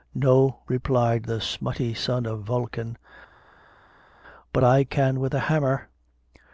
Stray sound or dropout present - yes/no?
no